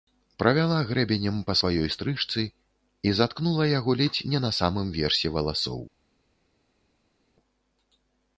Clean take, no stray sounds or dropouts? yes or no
yes